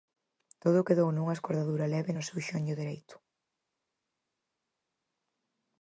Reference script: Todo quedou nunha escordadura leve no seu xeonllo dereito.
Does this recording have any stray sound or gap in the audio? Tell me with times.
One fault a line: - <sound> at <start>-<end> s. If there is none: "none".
none